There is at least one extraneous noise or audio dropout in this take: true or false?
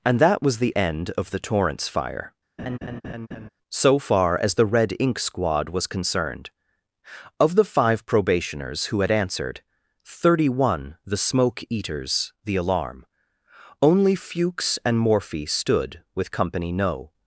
true